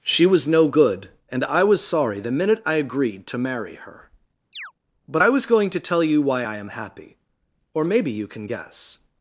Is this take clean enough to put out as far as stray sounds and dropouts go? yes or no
no